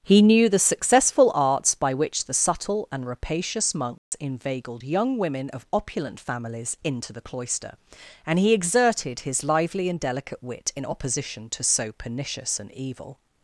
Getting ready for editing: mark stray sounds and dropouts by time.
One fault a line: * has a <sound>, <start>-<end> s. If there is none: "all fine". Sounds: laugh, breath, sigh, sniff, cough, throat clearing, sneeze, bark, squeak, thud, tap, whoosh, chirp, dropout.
* has a dropout, 4.0-4.1 s